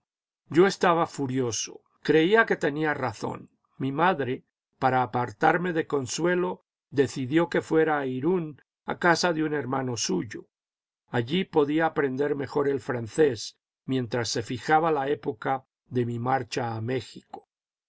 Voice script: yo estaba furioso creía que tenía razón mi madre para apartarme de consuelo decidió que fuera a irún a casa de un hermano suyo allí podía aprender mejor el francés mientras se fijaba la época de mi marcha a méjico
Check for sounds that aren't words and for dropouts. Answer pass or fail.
pass